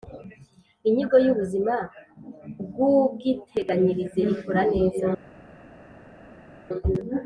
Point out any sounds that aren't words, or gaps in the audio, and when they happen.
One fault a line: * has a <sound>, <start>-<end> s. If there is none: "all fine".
all fine